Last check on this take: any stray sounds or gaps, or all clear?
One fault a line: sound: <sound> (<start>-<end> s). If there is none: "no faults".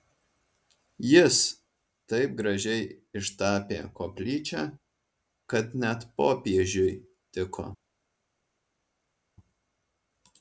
no faults